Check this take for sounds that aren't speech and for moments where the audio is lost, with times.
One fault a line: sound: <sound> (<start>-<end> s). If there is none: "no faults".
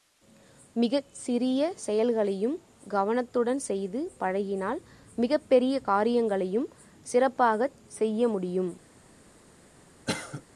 sound: cough (10.1-10.4 s)